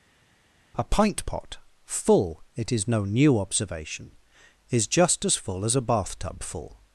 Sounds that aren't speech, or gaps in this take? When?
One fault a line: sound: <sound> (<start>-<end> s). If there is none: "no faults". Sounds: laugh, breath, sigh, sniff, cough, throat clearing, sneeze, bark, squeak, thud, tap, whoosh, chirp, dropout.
no faults